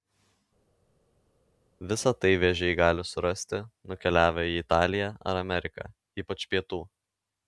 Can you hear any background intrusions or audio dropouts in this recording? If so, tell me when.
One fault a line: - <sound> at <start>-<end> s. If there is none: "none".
none